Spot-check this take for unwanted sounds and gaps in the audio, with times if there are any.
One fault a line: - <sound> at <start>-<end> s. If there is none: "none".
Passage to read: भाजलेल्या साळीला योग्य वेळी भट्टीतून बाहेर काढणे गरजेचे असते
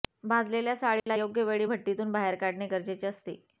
- dropout at 1.0-1.1 s